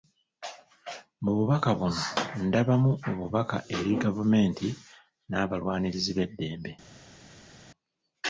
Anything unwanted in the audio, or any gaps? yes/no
no